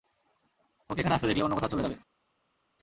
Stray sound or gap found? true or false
false